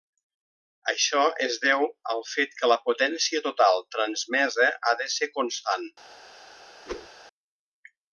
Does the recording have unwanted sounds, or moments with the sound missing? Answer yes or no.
yes